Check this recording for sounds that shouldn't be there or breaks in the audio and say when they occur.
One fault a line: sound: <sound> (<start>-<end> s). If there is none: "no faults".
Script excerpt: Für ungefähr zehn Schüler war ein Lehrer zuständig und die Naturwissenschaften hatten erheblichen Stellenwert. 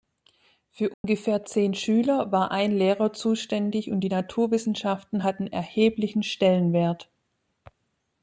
sound: dropout (0.9-1.0 s)